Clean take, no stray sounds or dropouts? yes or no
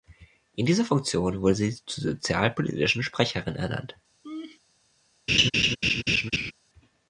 no